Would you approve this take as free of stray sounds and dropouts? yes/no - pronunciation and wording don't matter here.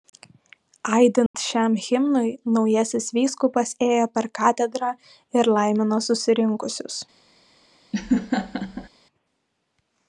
no